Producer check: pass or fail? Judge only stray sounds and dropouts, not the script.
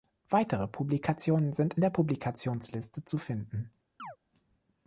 fail